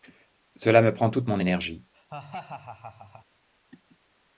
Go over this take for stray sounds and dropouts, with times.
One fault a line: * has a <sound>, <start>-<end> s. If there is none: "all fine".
* has a laugh, 1.9-3.3 s